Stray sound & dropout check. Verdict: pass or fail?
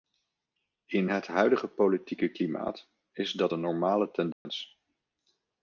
fail